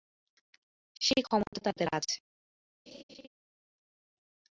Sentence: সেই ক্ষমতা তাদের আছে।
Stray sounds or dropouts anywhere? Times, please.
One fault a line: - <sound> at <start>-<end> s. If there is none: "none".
- dropout at 1.5-1.5 s
- laugh at 2.9-3.3 s